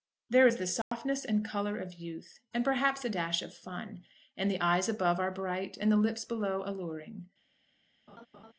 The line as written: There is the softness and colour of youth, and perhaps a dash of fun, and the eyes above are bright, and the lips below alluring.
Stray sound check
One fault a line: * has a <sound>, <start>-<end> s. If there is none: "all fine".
* has a dropout, 0.8-0.9 s
* has a laugh, 8.1-8.5 s